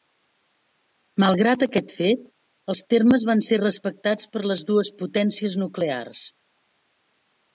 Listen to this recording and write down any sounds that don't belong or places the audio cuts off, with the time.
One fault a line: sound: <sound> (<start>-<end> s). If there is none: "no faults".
no faults